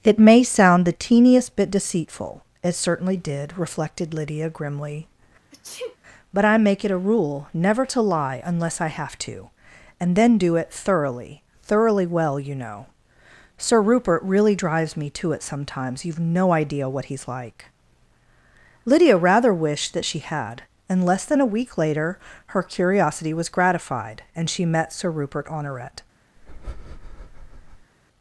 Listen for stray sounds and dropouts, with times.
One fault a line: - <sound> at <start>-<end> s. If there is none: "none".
- sneeze at 5.5-6.0 s
- breath at 26.4-27.9 s